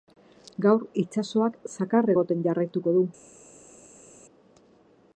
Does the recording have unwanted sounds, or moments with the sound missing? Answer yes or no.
no